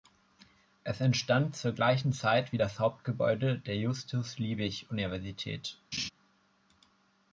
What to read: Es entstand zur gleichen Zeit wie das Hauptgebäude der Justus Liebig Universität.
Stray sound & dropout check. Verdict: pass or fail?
fail